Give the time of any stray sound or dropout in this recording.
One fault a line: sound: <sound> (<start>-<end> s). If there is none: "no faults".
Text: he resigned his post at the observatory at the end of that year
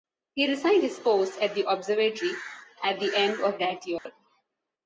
sound: dropout (4.0-4.1 s)